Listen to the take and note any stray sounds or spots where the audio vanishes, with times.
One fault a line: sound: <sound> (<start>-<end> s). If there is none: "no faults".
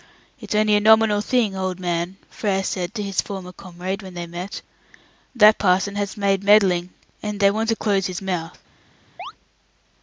sound: chirp (9.2-9.3 s)